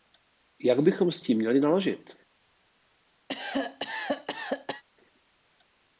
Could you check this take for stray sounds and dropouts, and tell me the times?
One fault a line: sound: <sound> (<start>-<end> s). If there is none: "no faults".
sound: cough (3.3-4.8 s)